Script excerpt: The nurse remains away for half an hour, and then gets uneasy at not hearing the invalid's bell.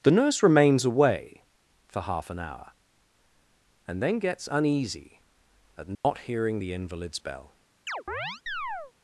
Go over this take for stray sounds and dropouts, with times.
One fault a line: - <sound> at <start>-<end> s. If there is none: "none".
- dropout at 5.9-6.0 s
- chirp at 7.9-8.9 s